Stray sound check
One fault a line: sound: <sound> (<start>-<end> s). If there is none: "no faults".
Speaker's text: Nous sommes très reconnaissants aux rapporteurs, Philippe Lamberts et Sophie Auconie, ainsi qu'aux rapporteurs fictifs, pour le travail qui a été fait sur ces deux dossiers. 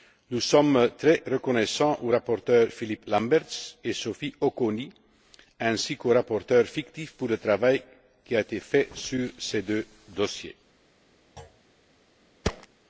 sound: thud (11.4-11.6 s)
sound: thud (12.4-12.7 s)